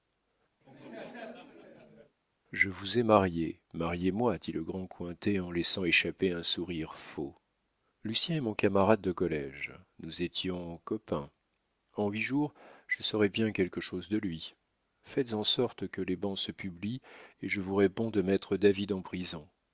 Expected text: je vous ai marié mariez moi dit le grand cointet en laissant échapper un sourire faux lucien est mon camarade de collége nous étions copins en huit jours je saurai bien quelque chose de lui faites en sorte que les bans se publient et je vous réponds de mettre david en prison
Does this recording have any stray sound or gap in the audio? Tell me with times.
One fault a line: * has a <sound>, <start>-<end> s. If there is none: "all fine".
* has a laugh, 0.6-2.2 s